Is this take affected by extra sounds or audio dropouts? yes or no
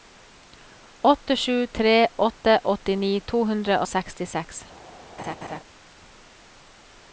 yes